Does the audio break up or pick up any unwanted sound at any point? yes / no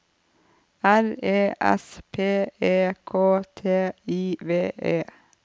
no